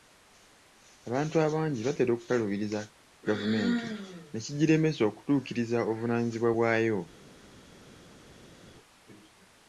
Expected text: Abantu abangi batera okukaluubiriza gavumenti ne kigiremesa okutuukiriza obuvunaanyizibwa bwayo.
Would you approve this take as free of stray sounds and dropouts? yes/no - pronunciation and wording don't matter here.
yes